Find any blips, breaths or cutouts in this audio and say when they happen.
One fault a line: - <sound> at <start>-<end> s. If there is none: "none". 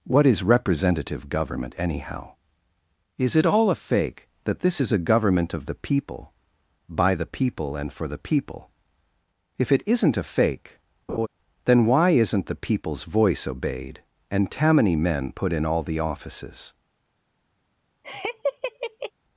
- laugh at 11.1-11.3 s
- laugh at 18.0-19.1 s